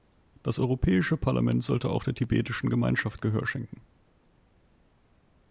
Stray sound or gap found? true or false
false